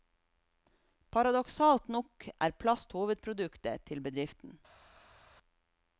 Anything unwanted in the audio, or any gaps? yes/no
no